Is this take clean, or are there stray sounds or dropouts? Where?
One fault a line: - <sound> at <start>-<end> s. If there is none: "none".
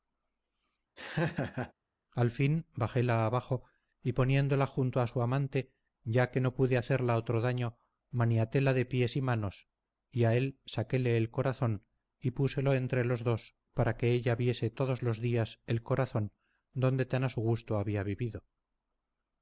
- laugh at 1.0-1.7 s